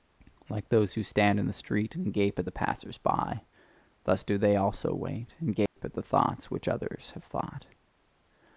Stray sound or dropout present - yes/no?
yes